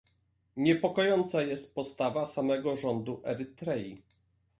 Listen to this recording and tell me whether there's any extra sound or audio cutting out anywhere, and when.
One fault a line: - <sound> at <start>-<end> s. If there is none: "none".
none